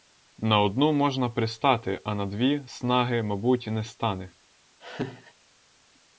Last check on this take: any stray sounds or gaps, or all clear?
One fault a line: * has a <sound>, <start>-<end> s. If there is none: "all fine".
* has a laugh, 4.8-5.3 s